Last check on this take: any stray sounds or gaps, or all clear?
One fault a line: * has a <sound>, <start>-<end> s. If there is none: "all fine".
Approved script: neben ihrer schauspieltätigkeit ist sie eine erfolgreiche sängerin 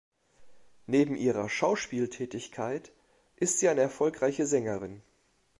all fine